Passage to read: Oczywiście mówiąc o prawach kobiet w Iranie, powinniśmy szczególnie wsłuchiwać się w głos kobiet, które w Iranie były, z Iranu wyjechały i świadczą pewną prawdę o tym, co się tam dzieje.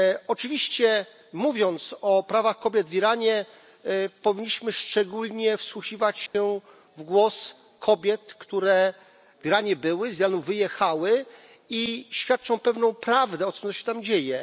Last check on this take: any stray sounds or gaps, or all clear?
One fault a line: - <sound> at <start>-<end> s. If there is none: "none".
- dropout at 6.3-6.3 s